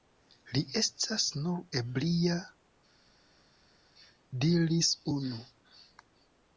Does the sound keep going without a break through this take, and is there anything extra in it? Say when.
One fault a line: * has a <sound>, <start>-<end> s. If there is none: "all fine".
all fine